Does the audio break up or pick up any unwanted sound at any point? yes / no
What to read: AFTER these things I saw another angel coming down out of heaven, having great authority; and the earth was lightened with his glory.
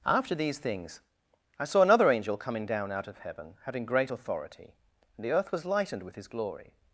no